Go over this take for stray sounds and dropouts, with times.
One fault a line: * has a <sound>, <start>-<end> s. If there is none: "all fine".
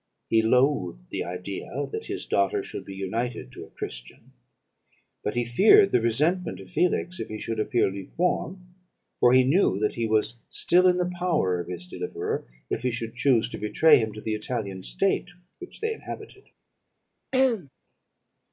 * has a throat clearing, 17.3-17.7 s